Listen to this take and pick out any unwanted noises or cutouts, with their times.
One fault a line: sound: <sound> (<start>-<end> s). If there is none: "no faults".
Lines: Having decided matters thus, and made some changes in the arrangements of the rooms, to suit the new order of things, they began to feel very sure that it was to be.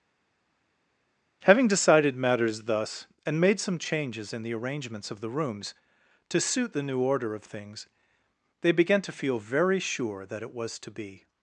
no faults